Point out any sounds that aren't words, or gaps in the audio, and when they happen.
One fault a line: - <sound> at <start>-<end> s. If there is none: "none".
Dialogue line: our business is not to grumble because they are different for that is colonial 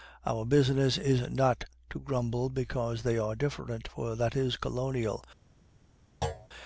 - thud at 6.2-6.5 s